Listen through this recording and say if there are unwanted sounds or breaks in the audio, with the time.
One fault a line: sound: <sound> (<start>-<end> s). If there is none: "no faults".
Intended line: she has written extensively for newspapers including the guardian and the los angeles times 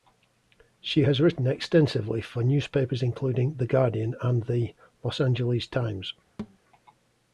sound: thud (6.4-6.6 s)